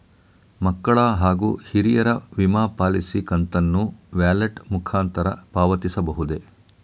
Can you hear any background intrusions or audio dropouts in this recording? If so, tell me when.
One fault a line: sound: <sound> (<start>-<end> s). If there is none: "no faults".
no faults